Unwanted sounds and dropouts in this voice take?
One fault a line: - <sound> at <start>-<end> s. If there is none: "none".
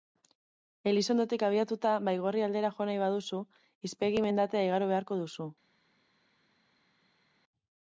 none